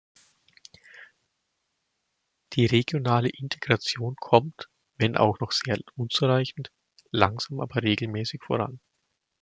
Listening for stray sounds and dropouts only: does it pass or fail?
pass